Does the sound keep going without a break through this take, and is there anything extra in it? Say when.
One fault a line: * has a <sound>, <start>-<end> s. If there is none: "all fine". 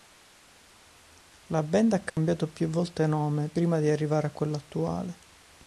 * has a dropout, 2.1-2.2 s